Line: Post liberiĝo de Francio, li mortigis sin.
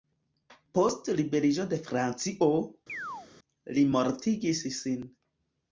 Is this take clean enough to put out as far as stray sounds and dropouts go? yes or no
no